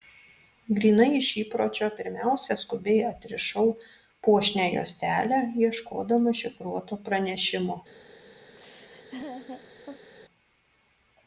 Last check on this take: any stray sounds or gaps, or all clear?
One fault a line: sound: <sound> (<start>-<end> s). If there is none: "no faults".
sound: laugh (8.5-10.1 s)